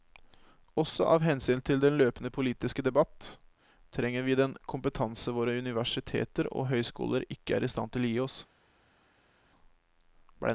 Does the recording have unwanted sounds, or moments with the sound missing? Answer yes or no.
no